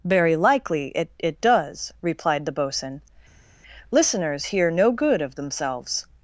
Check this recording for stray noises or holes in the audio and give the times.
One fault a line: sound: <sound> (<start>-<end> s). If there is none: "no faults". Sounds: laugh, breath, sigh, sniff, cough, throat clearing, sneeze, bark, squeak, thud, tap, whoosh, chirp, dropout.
no faults